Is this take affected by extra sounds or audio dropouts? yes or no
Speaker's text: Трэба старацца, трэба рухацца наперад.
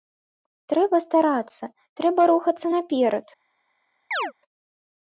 yes